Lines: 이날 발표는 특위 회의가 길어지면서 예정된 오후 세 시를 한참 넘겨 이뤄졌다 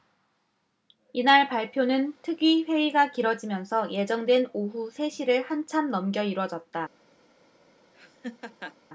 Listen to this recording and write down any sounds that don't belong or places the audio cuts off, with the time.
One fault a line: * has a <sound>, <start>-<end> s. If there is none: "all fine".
* has a laugh, 7.9-8.8 s